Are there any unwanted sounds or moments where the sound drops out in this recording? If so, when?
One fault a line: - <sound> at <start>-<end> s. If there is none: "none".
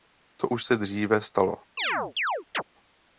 - chirp at 1.8-2.6 s